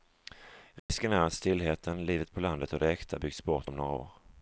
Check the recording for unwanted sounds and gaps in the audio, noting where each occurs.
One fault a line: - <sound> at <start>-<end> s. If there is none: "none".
- dropout at 0.8-0.9 s